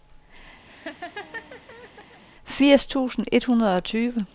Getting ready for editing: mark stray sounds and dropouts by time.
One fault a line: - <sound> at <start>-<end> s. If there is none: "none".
- laugh at 0.7-2.2 s